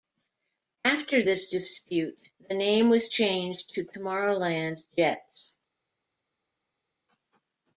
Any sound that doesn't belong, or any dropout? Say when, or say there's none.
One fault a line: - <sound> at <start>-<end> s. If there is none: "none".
none